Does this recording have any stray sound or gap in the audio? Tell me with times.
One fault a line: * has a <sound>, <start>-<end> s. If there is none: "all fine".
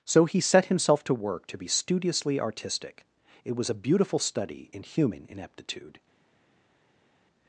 all fine